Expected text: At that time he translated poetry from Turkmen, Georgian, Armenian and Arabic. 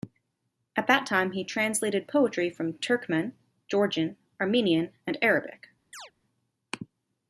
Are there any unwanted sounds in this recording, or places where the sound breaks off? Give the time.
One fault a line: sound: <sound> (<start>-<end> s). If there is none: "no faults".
sound: chirp (5.9-6.1 s)